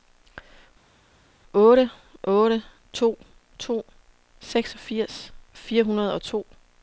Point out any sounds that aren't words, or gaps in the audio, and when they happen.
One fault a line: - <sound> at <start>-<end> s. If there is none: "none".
none